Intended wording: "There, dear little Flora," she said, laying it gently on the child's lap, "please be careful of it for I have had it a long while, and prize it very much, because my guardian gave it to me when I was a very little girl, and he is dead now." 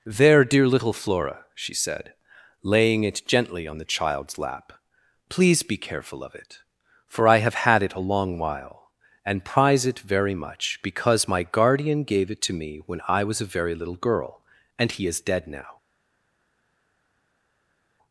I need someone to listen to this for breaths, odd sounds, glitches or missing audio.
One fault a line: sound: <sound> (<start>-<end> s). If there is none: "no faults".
no faults